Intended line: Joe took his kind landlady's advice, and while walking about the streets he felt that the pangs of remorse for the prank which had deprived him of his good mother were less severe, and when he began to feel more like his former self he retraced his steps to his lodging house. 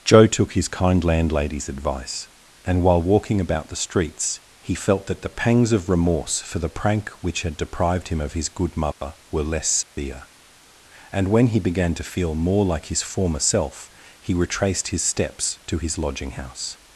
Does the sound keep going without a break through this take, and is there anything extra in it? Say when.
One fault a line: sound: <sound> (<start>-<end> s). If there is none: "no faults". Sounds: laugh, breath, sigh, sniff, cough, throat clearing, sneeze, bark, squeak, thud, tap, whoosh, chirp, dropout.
sound: dropout (8.9-9.0 s)
sound: dropout (9.8-10.0 s)